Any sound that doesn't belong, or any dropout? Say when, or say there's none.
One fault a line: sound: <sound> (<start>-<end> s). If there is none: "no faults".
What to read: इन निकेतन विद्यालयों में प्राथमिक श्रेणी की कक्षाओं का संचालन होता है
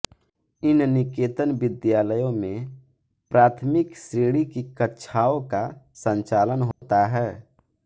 sound: dropout (6.7-6.8 s)